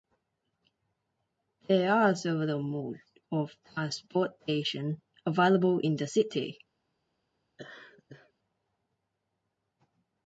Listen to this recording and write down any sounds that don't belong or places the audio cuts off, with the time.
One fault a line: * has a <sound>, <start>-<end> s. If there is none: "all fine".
* has a laugh, 7.6-8.3 s